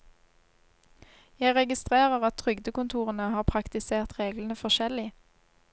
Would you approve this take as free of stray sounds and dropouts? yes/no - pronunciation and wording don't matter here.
yes